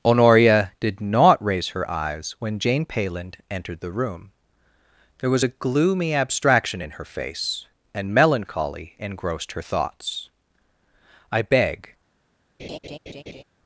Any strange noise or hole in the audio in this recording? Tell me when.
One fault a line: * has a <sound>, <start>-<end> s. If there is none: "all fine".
* has a laugh, 12.6-13.4 s